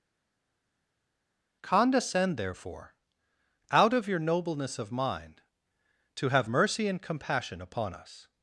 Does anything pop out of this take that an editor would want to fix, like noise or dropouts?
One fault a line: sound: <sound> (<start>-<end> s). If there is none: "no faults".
no faults